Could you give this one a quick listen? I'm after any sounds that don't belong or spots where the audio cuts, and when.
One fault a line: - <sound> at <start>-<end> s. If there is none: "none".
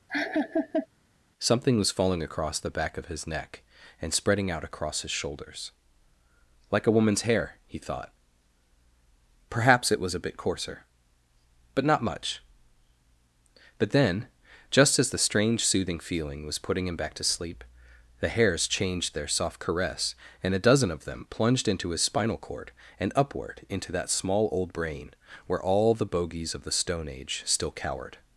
- laugh at 0.1-0.9 s